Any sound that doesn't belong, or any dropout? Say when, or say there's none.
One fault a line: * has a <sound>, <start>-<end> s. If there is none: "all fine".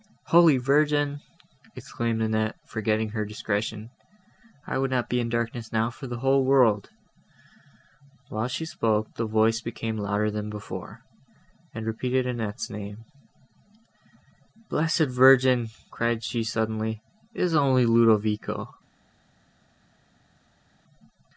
all fine